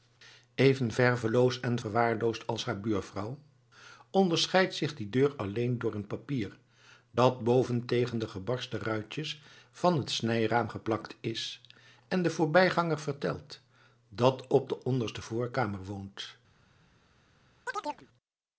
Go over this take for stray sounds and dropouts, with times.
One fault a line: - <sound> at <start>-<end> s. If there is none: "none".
- chirp at 17.7-18.1 s